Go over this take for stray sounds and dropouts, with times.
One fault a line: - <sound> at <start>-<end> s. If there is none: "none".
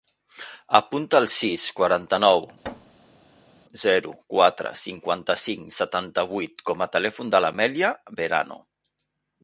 - thud at 2.6-3.6 s